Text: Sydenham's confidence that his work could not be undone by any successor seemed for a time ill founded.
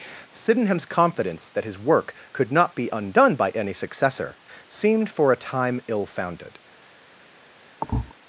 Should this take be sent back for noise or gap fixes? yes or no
yes